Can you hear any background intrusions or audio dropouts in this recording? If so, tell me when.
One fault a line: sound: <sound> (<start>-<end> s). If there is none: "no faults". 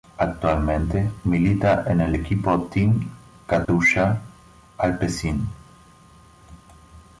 sound: dropout (3.6-3.7 s)